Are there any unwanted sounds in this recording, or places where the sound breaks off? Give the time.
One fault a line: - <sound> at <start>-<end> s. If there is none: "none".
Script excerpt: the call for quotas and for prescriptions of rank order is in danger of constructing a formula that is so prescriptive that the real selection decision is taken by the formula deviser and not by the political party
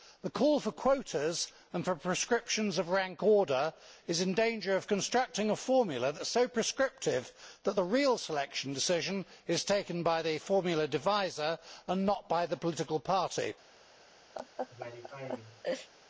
- laugh at 14.3-15.9 s